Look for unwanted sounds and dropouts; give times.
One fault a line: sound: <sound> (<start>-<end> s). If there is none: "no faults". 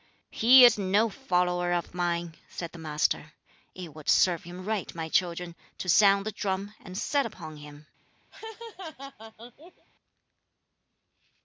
sound: laugh (8.3-9.9 s)